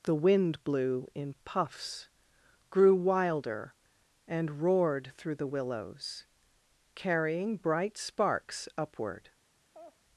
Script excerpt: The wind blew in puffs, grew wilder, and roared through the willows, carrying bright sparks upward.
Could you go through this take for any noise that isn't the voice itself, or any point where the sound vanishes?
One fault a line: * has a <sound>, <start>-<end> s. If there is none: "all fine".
* has a laugh, 9.7-10.0 s